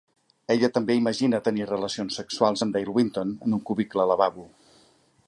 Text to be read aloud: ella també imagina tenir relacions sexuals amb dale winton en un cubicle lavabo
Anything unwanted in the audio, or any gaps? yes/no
no